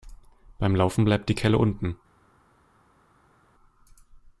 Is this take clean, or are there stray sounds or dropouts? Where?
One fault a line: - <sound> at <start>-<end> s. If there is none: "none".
none